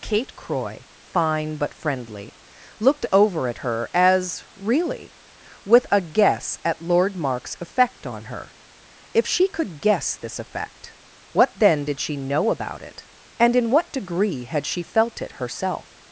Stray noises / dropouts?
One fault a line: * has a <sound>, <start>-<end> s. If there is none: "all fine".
all fine